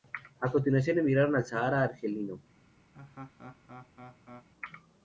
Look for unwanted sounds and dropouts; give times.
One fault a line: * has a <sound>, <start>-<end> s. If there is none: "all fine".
* has a laugh, 2.9-4.5 s